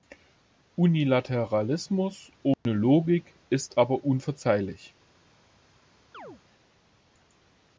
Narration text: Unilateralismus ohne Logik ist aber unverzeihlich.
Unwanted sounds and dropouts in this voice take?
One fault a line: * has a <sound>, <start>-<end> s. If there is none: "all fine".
* has a dropout, 2.5-2.7 s
* has a chirp, 6.1-6.4 s